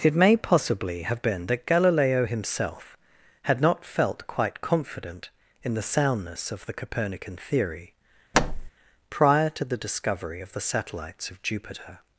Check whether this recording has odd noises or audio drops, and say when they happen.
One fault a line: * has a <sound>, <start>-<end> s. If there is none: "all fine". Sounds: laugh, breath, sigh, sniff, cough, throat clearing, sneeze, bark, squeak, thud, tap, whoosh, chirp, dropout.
* has a thud, 8.3-8.7 s